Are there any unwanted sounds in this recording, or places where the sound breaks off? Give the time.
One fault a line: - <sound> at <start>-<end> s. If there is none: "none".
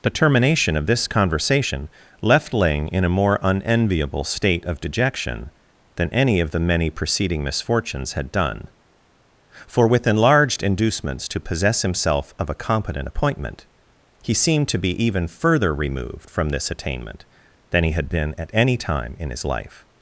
none